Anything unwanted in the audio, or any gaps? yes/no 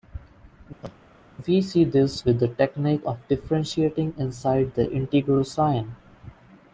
yes